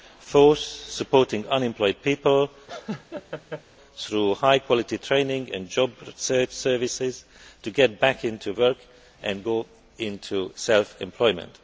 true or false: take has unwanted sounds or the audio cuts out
true